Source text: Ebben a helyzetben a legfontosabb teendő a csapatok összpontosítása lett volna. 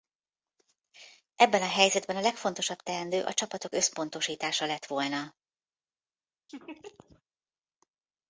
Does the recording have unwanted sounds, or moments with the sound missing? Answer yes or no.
yes